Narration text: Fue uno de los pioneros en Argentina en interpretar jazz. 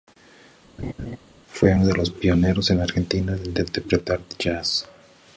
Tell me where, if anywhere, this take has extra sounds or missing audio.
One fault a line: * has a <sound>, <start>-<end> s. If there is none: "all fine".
* has a laugh, 0.8-1.2 s